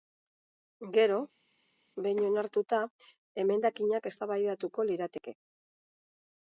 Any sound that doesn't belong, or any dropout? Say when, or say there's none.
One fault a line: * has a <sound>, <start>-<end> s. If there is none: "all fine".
all fine